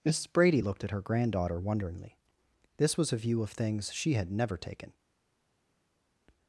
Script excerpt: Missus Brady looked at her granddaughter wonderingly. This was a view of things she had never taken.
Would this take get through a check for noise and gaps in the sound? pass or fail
pass